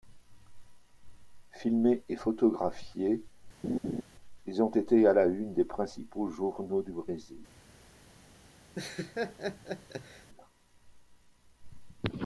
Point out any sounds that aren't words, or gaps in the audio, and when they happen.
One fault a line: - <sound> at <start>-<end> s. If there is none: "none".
- laugh at 3.6-4.0 s
- laugh at 8.7-10.3 s